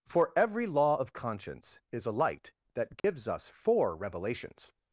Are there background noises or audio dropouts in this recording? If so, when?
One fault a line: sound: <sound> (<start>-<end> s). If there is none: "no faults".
sound: dropout (3.0-3.0 s)